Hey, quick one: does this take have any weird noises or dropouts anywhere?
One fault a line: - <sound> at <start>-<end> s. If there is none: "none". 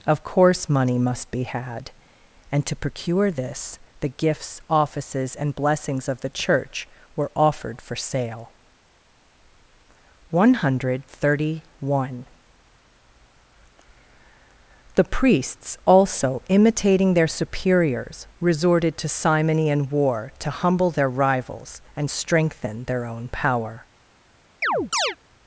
- chirp at 24.6-25.2 s